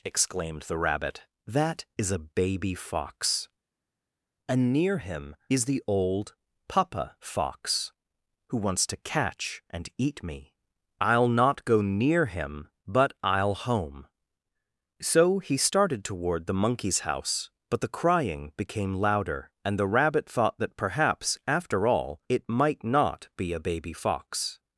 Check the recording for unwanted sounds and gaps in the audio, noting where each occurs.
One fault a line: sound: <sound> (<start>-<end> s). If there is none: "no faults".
no faults